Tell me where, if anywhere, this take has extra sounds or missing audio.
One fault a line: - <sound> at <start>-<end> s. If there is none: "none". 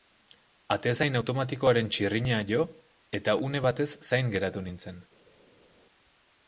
none